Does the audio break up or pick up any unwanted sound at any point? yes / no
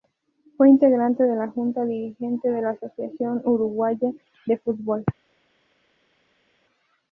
no